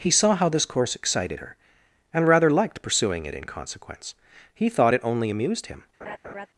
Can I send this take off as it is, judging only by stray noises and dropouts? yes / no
no